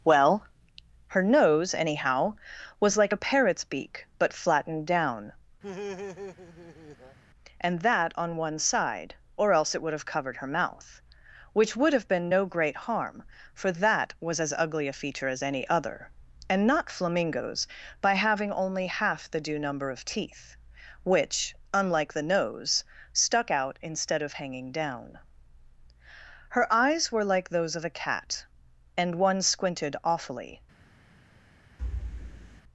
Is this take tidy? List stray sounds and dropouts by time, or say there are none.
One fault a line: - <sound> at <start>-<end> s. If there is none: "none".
- laugh at 5.6-7.2 s
- thud at 31.8-32.6 s